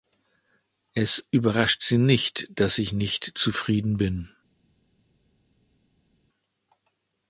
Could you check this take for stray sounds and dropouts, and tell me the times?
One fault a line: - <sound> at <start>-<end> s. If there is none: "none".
none